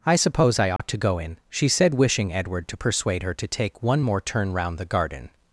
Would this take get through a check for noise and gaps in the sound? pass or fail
fail